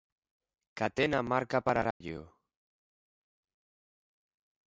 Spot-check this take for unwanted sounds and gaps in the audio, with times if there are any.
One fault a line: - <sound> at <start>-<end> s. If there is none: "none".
- dropout at 1.9-2.0 s